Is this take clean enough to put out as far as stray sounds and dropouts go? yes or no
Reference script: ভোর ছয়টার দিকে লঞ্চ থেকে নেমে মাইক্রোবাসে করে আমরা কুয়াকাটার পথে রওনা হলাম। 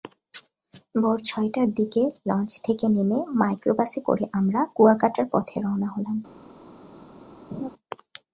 no